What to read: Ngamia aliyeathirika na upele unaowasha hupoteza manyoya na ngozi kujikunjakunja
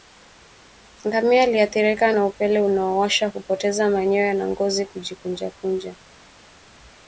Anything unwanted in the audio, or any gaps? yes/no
no